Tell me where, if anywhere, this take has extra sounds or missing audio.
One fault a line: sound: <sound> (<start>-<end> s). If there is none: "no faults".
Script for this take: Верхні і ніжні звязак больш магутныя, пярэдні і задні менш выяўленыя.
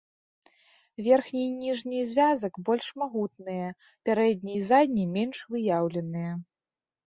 no faults